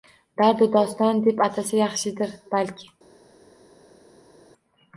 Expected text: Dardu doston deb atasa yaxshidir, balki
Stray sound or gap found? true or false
false